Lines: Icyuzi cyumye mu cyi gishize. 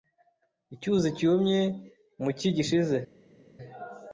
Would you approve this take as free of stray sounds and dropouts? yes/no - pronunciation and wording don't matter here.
yes